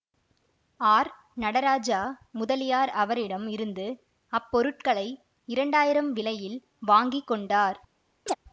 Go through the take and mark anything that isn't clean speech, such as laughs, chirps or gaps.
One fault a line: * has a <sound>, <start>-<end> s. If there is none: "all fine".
* has a chirp, 8.3-8.4 s